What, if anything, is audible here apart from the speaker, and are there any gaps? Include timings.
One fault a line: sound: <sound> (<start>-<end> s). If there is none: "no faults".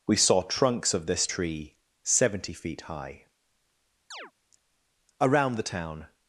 sound: chirp (4.1-4.3 s)